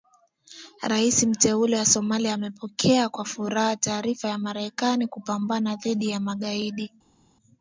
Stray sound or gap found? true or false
false